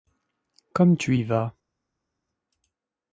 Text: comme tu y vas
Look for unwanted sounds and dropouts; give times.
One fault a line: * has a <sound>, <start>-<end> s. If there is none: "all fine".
all fine